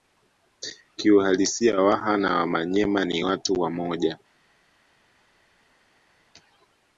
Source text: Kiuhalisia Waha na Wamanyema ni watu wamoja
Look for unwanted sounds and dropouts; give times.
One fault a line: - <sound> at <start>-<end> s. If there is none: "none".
none